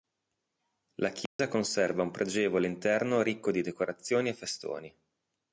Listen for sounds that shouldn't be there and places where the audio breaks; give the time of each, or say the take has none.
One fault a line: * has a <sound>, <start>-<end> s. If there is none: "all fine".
* has a dropout, 1.3-1.4 s